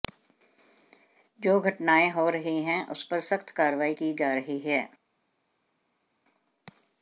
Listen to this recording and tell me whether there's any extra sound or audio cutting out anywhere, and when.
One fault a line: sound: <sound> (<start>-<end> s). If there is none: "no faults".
no faults